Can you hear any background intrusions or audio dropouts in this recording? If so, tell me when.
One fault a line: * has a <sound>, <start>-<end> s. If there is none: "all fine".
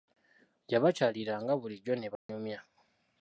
* has a dropout, 2.2-2.3 s